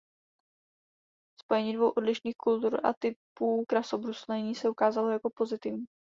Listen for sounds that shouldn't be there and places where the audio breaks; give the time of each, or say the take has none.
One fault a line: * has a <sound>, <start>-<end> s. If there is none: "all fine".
all fine